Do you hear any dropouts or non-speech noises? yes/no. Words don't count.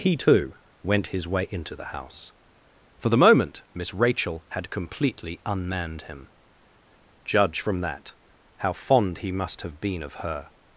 no